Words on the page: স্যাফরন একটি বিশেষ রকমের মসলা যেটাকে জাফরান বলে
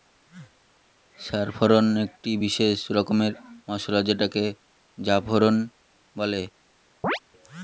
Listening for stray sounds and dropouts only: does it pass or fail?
fail